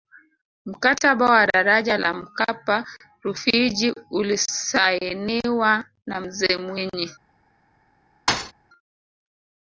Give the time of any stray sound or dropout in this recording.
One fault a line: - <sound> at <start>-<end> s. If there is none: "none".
- thud at 8.3-8.5 s